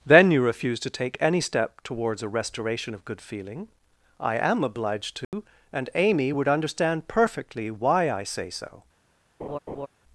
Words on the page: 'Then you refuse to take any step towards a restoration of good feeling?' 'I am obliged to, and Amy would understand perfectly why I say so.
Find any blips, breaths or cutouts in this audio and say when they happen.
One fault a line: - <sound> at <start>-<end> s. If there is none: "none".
- dropout at 5.2-5.3 s
- laugh at 9.4-9.9 s